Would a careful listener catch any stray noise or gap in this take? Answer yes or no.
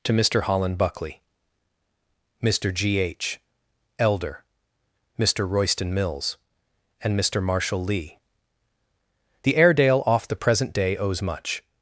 no